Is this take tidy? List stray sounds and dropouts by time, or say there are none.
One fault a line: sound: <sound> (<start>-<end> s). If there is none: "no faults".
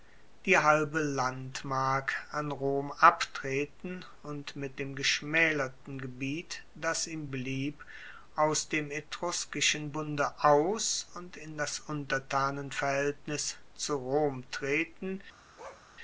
sound: bark (15.6-15.9 s)